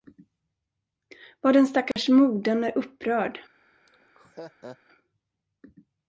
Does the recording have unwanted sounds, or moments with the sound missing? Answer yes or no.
yes